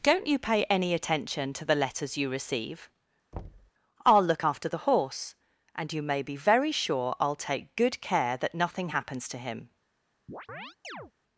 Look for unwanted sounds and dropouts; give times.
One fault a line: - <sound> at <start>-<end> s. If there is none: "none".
- thud at 3.3-3.7 s
- chirp at 10.3-11.1 s